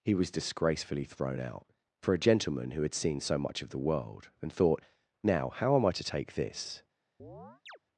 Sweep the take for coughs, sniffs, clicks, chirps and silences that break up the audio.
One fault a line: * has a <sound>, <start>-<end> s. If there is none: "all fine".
* has a chirp, 7.2-7.8 s